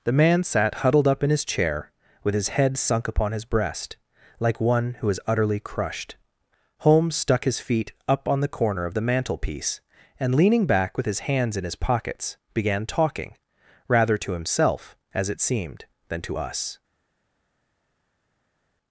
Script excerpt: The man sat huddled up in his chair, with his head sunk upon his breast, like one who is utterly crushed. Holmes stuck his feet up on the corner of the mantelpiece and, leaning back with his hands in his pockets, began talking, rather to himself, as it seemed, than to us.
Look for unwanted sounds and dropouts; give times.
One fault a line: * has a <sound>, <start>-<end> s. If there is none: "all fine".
all fine